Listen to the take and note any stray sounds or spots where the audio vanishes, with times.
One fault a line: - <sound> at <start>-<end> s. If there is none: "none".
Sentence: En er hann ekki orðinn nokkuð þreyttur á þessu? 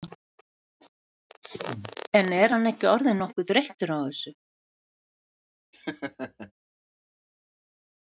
- laugh at 5.7-6.5 s